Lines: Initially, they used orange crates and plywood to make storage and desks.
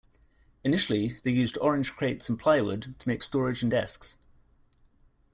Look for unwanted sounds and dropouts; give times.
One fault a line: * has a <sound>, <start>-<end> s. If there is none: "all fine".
all fine